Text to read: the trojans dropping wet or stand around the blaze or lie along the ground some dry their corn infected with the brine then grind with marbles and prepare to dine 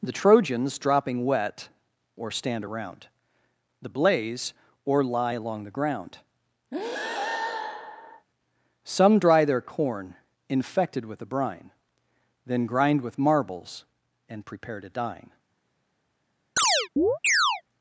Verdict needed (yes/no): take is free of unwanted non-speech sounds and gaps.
no